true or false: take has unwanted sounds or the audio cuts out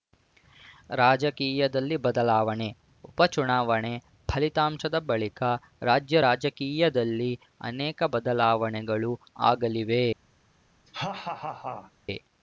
true